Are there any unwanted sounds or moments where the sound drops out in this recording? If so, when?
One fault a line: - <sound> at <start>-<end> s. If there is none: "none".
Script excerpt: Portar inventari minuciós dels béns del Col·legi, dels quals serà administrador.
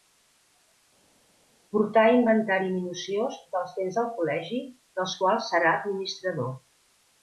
none